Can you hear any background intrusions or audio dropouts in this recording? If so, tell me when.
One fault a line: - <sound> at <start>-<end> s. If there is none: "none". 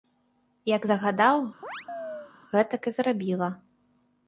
- chirp at 1.6-2.3 s